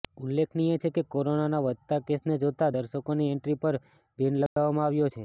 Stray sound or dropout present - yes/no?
yes